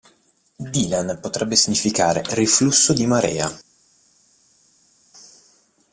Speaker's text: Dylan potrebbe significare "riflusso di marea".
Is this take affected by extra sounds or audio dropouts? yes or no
no